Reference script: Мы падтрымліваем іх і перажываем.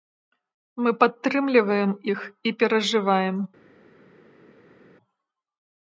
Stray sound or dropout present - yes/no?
no